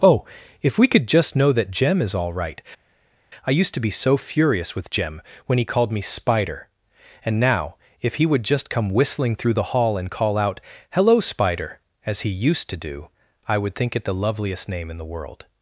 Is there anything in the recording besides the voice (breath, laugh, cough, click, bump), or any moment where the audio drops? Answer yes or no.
no